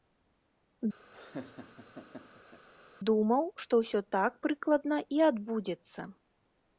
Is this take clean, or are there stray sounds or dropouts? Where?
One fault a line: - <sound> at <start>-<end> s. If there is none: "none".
- laugh at 1.1-2.7 s